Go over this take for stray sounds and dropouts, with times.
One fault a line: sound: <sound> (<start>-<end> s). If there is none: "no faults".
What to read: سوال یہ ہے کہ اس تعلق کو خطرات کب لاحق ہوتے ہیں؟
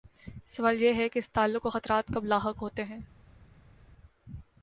no faults